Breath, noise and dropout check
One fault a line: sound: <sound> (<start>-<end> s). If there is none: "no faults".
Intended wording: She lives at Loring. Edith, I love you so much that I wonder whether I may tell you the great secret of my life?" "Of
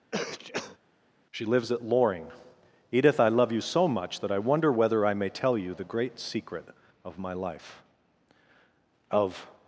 sound: sneeze (0.1-0.8 s)